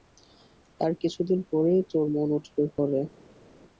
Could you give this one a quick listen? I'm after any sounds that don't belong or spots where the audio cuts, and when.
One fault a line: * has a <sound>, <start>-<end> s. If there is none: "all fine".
all fine